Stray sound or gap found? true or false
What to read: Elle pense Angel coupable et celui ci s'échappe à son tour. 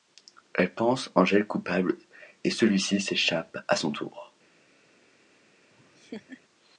true